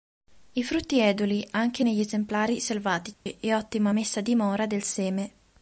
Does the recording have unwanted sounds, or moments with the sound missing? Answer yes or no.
yes